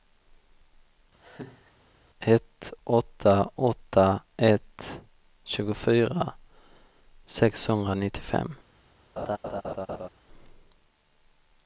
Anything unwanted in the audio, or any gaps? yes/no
yes